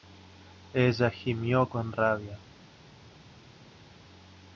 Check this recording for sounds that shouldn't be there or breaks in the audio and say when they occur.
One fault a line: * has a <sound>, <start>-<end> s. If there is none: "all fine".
all fine